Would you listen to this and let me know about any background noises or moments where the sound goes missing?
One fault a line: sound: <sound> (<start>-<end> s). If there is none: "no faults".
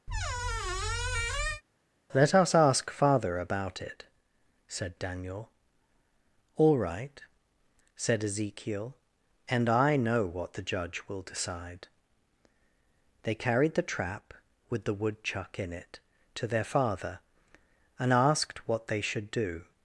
sound: squeak (0.1-1.6 s)